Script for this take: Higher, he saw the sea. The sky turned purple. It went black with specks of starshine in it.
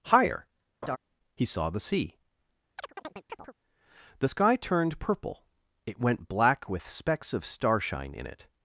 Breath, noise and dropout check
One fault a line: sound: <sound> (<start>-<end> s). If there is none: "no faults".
sound: laugh (0.8-1.0 s)
sound: chirp (2.8-3.5 s)